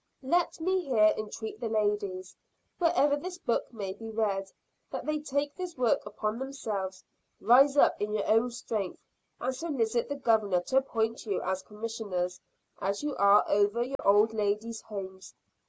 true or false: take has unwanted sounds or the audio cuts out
true